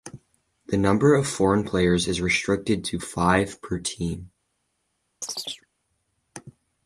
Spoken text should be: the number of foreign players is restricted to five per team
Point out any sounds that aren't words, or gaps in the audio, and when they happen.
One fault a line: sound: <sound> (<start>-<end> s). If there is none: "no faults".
sound: chirp (5.2-5.7 s)